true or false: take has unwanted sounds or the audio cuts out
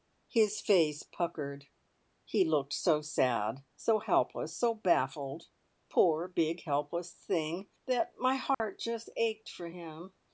true